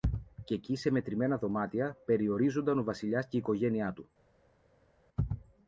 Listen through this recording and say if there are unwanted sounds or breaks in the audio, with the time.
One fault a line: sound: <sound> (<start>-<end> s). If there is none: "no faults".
no faults